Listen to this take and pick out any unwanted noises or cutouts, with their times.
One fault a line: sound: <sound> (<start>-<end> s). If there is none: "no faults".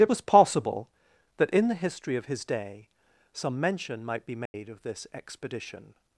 sound: dropout (4.5-4.5 s)